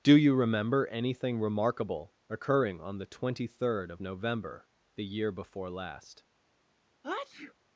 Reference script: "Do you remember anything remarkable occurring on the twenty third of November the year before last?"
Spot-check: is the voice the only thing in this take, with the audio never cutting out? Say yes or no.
no